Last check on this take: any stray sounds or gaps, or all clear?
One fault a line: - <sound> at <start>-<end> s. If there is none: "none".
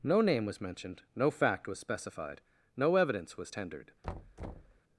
- thud at 4.0-4.8 s